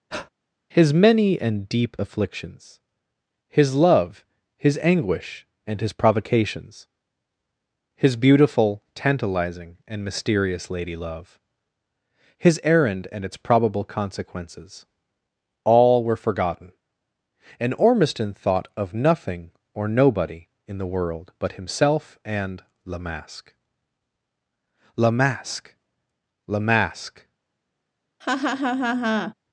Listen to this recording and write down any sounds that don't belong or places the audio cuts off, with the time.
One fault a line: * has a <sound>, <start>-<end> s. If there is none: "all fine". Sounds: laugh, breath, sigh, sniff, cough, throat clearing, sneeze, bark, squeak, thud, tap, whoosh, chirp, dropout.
* has a breath, 0.1-0.3 s
* has a laugh, 28.2-29.3 s